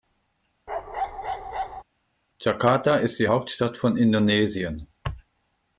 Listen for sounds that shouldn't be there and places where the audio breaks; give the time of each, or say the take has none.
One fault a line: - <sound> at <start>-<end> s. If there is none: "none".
- bark at 0.7-1.8 s